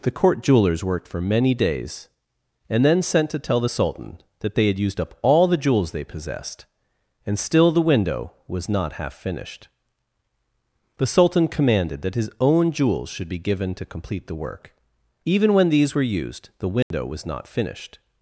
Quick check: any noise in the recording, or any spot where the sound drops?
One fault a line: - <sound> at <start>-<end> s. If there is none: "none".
- dropout at 16.8-16.9 s